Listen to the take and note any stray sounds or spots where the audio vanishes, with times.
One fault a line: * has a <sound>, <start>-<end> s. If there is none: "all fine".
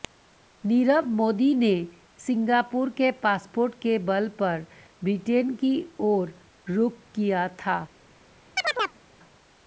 * has a chirp, 8.6-9.0 s